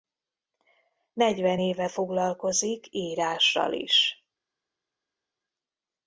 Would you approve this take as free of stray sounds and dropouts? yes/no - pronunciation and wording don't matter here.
yes